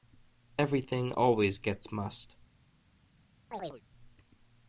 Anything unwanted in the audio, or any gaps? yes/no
yes